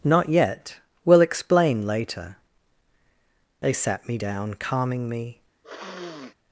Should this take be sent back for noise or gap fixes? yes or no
yes